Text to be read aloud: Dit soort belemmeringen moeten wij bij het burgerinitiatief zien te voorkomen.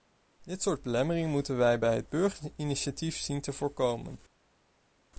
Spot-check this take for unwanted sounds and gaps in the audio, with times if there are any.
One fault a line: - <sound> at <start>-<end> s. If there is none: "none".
none